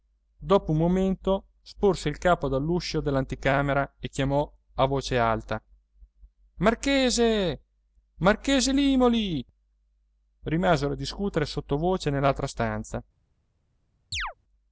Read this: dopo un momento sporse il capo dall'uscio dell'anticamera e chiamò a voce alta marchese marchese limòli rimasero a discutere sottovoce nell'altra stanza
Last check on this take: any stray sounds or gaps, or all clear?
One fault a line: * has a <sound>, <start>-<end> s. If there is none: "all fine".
* has a chirp, 14.1-14.3 s